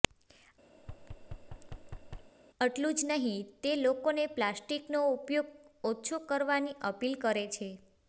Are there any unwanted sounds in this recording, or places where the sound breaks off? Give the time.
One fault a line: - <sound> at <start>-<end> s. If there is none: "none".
- thud at 0.8-2.3 s